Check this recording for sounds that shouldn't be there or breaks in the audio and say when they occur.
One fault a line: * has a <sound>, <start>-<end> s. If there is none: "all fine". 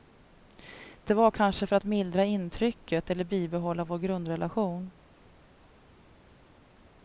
all fine